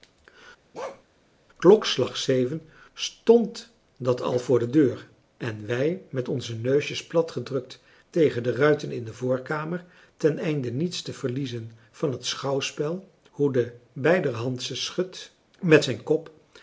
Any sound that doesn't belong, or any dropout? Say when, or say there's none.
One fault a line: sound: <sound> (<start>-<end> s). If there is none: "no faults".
sound: bark (0.7-1.0 s)